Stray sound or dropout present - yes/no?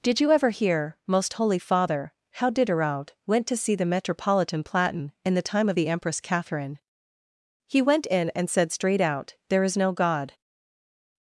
no